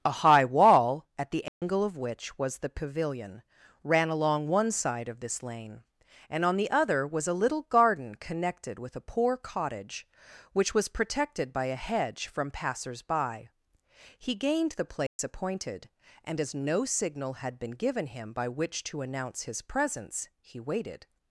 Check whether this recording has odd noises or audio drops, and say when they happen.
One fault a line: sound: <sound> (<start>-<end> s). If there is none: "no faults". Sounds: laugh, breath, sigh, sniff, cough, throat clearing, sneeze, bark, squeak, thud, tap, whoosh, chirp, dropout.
sound: dropout (1.5-1.6 s)
sound: dropout (15.1-15.2 s)